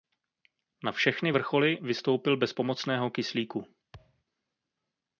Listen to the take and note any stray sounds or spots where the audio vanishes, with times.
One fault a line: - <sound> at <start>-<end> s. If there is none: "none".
- thud at 3.9-4.2 s